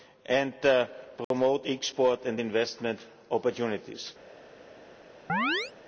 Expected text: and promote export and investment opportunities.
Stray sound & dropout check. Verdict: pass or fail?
fail